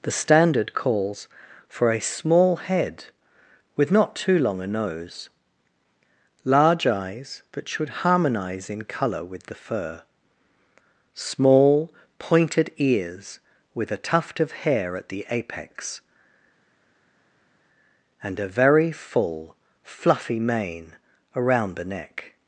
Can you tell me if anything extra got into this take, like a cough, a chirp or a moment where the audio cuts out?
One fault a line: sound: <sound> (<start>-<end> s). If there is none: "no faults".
no faults